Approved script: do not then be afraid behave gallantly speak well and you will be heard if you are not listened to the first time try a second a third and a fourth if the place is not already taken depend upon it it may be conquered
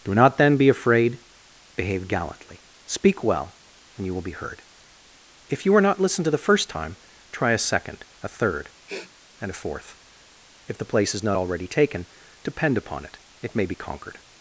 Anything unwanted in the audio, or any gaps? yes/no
yes